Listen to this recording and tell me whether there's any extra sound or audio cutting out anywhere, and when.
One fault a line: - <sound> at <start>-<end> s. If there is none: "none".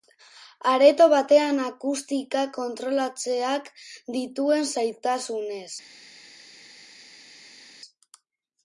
none